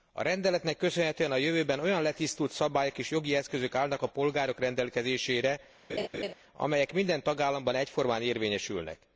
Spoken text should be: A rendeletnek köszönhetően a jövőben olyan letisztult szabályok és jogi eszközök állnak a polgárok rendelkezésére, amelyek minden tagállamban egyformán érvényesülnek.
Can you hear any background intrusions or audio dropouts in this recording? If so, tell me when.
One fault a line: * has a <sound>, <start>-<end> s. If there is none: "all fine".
* has a laugh, 5.9-6.3 s